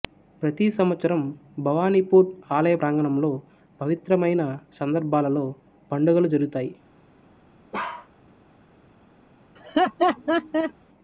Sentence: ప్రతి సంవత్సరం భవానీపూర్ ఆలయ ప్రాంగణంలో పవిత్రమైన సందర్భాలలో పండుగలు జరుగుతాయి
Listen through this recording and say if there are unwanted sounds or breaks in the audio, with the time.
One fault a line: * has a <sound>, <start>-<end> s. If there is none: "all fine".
* has a bark, 7.7-8.1 s
* has a laugh, 9.6-10.7 s